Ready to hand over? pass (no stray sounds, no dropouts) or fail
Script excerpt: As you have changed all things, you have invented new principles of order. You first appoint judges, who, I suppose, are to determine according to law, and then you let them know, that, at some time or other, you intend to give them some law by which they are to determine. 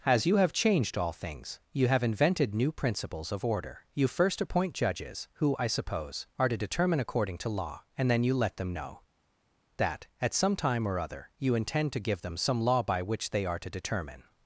pass